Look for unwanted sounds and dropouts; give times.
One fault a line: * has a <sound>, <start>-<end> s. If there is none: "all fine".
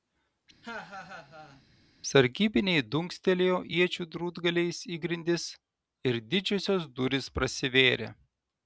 * has a laugh, 0.6-1.6 s